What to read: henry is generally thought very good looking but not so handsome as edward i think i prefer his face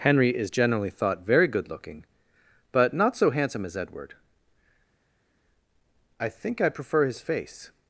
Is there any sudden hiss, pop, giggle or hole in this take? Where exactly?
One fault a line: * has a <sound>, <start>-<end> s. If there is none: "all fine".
all fine